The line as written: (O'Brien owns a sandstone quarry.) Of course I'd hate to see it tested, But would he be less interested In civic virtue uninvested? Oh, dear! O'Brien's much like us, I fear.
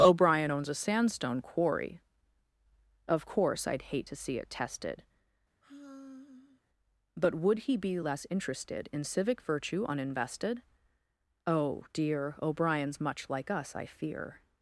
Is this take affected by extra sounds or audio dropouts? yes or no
yes